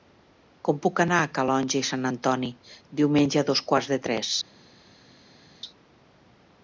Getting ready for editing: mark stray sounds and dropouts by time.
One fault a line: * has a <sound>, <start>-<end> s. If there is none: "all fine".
all fine